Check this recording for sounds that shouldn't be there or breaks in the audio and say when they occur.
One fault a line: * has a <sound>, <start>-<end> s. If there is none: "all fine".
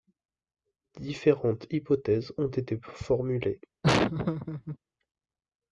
* has a laugh, 3.8-4.8 s